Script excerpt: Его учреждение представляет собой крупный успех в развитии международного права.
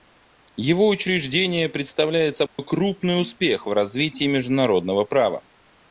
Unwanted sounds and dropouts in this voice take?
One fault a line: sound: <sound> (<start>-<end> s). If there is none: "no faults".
sound: dropout (2.5-2.6 s)